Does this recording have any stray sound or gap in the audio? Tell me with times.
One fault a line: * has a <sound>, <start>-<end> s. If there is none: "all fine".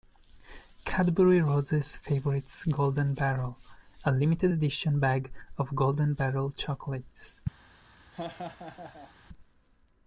* has a laugh, 8.1-9.1 s